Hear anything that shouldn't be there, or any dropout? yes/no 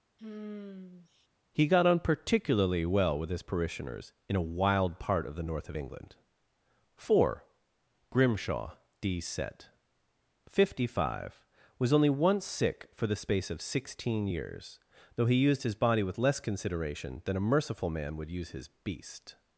yes